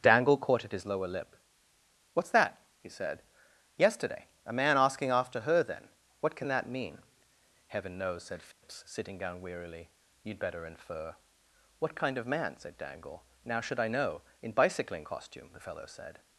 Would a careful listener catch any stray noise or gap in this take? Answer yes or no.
yes